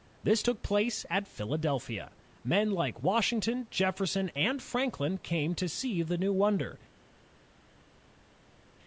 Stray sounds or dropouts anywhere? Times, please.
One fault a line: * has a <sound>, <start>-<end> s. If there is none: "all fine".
all fine